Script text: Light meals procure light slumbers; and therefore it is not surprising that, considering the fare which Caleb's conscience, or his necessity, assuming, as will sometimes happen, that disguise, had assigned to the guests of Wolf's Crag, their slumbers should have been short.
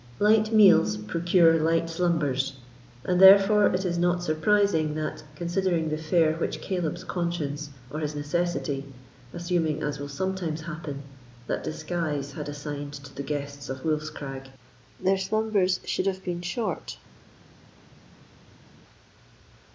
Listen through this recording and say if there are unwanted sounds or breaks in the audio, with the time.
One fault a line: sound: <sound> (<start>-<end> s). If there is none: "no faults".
no faults